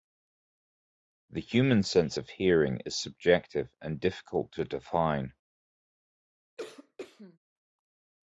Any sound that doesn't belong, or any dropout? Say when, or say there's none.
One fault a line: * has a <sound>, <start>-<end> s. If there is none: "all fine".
* has a cough, 6.6-7.4 s